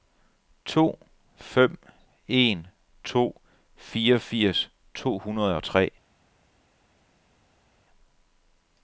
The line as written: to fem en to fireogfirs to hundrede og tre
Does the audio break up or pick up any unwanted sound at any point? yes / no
no